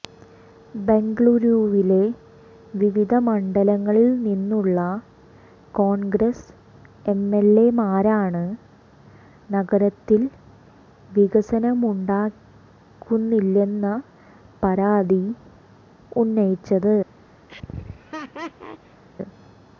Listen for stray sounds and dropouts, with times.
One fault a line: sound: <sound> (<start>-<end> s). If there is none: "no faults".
sound: laugh (17.5-19.0 s)